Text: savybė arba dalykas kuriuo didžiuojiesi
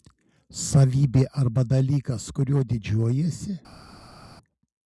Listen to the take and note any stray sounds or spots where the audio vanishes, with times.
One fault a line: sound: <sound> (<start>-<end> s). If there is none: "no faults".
no faults